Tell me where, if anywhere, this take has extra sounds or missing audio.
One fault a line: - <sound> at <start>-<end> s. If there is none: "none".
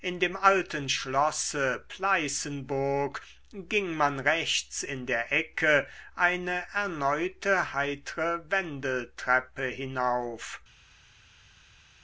none